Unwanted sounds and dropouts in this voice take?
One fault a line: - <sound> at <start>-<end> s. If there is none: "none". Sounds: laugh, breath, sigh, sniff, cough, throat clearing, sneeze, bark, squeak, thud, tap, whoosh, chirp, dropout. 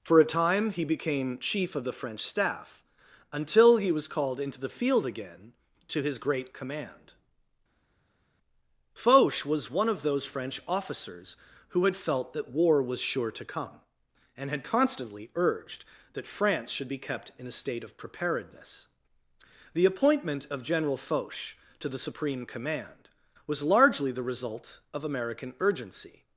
none